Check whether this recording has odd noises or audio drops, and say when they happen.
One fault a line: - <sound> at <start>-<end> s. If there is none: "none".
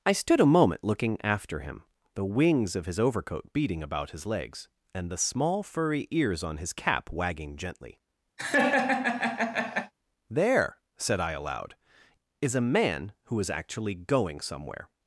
- laugh at 8.4-9.9 s